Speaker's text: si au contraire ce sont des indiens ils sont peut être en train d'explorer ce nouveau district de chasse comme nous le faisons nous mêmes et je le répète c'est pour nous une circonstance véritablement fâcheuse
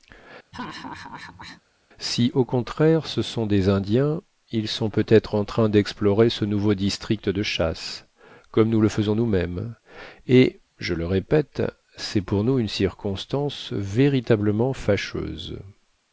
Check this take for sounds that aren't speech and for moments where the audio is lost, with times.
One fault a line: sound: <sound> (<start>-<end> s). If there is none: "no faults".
sound: laugh (0.5-1.6 s)